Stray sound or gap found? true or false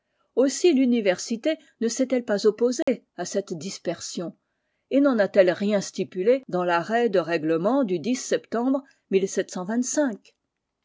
true